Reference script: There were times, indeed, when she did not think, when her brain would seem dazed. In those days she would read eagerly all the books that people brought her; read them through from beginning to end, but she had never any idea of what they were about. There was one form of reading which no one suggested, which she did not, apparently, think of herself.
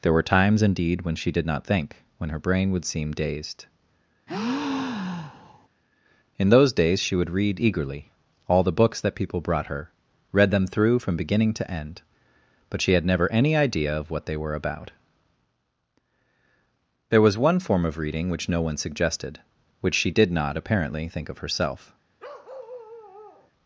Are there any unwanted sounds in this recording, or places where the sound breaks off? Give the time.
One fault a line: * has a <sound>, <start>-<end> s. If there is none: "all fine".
* has a breath, 4.3-5.7 s
* has a bark, 22.2-23.5 s